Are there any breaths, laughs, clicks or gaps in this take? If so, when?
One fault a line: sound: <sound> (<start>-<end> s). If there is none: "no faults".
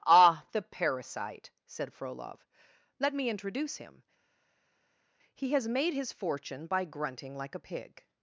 no faults